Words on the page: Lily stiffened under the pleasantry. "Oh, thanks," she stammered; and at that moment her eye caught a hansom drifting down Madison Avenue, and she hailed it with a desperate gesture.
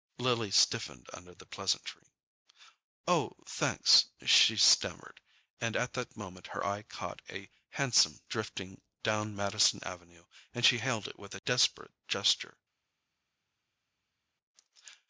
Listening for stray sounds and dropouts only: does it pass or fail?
pass